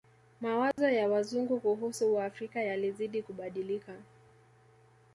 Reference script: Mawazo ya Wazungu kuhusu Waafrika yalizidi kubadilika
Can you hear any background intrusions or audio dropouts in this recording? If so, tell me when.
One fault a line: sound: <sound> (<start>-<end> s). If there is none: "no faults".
sound: dropout (0.7-0.8 s)